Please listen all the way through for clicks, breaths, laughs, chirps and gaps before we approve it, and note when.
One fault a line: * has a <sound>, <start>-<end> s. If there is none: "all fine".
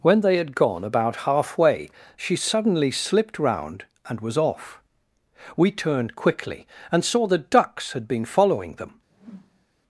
* has a whoosh, 9.1-9.7 s